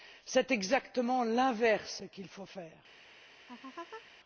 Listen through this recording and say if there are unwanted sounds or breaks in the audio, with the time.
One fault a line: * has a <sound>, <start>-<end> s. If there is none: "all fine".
* has a laugh, 3.5-4.1 s